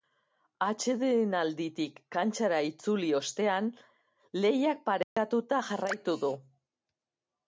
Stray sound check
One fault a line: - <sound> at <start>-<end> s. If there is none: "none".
- dropout at 5.0-5.2 s